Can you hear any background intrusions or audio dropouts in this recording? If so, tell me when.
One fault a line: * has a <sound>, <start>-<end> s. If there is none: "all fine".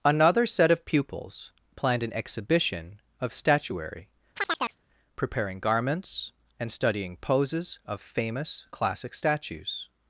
* has a chirp, 4.4-4.8 s